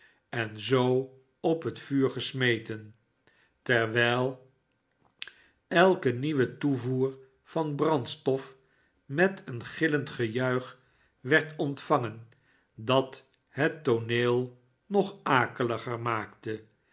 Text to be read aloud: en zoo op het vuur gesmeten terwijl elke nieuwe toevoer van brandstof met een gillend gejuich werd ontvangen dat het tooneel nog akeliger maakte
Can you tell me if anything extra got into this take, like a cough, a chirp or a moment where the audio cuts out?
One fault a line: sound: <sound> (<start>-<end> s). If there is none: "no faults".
no faults